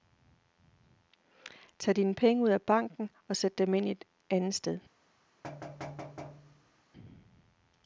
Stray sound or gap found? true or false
true